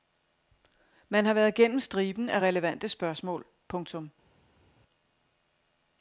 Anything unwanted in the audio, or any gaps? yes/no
no